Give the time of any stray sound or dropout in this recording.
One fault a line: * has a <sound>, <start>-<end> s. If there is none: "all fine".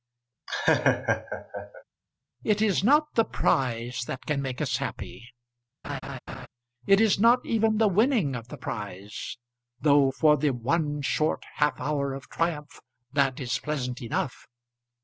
* has a laugh, 0.5-1.8 s
* has a laugh, 5.8-6.5 s